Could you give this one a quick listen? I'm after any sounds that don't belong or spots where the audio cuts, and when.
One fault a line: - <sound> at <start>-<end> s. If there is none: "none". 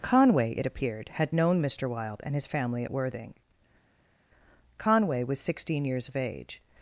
none